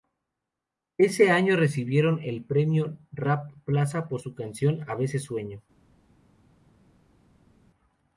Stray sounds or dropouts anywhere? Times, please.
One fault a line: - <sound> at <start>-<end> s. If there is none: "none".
none